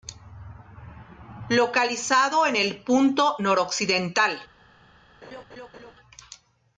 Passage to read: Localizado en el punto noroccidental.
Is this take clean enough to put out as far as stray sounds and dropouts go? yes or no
no